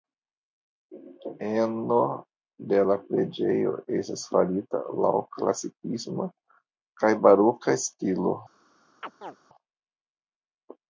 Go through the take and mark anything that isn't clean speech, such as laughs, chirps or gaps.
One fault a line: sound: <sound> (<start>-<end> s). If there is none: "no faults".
sound: chirp (9.0-9.4 s)